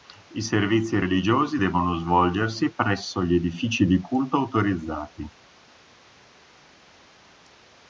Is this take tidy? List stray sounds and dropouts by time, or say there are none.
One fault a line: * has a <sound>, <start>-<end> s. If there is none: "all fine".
all fine